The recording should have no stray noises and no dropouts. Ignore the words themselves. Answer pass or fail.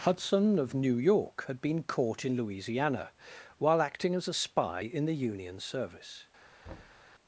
fail